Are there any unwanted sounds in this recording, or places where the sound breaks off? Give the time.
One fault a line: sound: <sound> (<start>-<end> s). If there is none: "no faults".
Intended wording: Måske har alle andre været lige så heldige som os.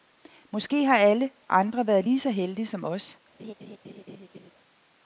sound: laugh (3.4-4.5 s)